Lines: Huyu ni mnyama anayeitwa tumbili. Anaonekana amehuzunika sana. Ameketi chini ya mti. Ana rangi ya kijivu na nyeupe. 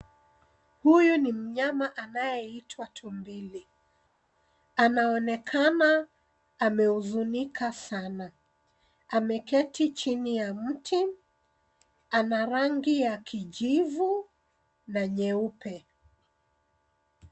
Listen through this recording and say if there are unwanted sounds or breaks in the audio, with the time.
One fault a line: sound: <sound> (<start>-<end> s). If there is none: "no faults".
no faults